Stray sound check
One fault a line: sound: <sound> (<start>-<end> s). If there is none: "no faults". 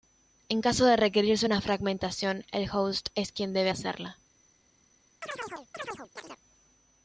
sound: chirp (5.2-6.4 s)